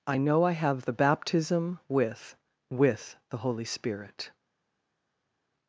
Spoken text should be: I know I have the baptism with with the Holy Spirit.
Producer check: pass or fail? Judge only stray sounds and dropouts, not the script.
pass